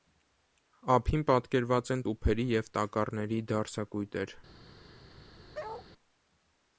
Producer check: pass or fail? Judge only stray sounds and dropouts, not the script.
fail